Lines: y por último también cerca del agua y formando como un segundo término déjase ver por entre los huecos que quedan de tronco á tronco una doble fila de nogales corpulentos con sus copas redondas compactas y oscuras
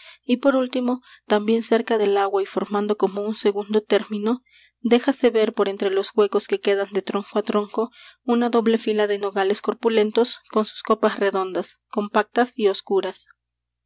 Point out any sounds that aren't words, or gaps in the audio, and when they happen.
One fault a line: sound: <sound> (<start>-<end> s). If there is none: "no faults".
no faults